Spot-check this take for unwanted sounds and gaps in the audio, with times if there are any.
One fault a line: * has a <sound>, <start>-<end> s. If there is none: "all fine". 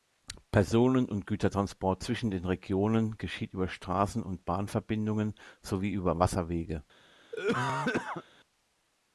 * has a cough, 7.3-8.2 s